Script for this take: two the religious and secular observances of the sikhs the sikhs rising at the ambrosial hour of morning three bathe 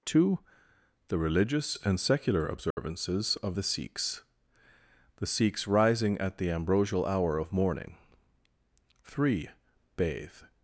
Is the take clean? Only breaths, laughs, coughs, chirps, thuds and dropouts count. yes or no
no